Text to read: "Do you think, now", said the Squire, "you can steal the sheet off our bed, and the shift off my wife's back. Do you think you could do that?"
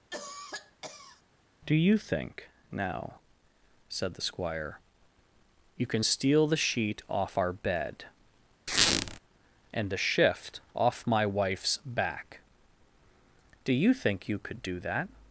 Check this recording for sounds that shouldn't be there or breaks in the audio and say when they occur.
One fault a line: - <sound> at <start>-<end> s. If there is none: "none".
- cough at 0.1-1.2 s
- squeak at 8.7-9.2 s